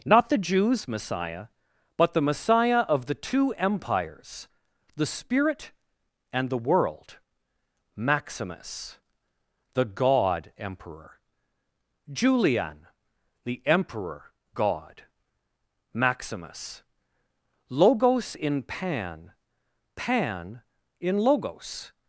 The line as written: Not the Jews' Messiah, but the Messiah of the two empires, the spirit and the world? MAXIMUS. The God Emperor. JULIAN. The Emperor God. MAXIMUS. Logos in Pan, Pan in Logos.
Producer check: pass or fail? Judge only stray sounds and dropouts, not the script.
pass